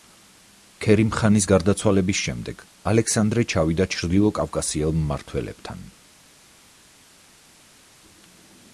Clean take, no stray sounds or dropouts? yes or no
yes